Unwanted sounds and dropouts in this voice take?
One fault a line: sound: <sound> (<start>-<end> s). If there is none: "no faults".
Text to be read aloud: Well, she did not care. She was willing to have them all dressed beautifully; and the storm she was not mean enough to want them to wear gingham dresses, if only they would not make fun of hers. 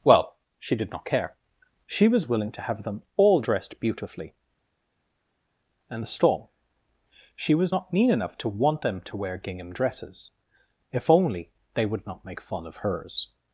no faults